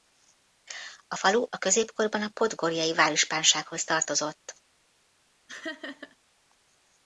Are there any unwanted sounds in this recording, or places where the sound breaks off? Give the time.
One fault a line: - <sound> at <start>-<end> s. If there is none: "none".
- laugh at 5.5-6.2 s